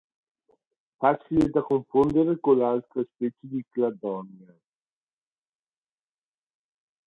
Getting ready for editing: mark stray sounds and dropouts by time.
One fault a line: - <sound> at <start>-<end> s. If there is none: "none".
none